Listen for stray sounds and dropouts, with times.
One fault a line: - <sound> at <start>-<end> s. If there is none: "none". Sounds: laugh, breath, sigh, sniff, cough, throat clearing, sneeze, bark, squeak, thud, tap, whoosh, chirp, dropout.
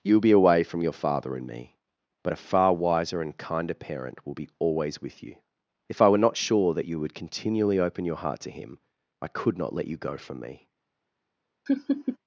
- laugh at 11.7-12.2 s